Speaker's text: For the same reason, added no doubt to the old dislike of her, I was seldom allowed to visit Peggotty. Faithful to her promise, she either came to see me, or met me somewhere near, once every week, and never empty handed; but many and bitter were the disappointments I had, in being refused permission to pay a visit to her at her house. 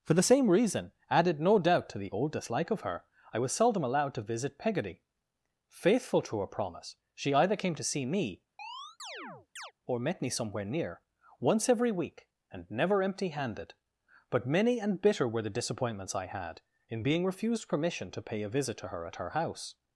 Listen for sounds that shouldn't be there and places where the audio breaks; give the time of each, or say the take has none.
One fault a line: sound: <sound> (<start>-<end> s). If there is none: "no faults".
sound: chirp (8.6-9.7 s)